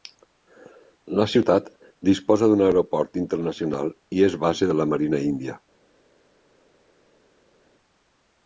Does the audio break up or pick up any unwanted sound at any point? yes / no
no